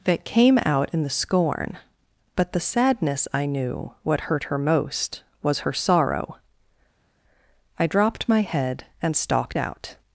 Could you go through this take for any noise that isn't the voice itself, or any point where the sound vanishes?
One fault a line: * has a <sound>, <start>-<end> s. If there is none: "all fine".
all fine